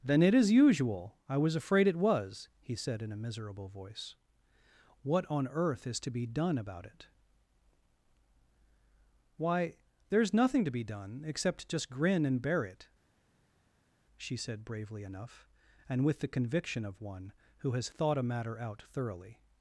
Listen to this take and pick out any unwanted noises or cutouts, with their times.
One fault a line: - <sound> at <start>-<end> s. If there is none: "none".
none